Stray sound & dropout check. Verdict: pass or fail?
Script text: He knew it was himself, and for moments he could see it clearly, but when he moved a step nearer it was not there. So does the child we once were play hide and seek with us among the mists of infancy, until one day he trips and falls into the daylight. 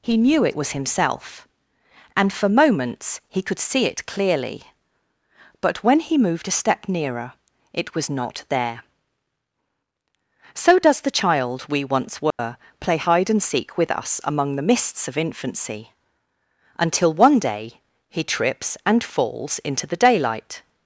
fail